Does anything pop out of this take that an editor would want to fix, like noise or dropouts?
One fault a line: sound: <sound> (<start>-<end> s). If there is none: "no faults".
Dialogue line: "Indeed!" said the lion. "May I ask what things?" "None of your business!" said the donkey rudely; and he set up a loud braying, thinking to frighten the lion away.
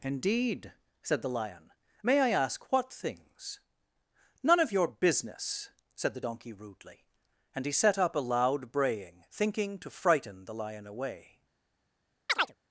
sound: chirp (12.3-12.6 s)